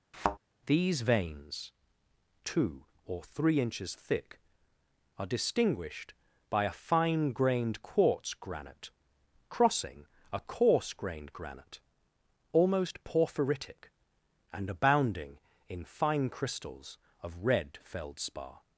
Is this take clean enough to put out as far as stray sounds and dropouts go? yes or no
no